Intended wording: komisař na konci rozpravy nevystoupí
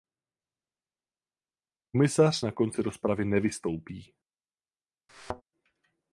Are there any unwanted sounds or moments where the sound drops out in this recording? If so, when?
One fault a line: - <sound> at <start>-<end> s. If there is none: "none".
- thud at 5.1-5.4 s